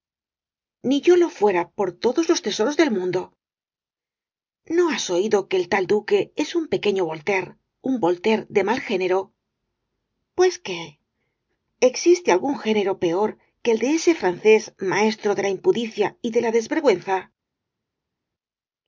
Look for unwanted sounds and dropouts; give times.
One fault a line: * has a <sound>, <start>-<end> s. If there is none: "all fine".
all fine